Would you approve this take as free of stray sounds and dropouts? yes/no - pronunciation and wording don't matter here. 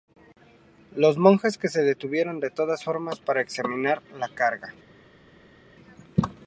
yes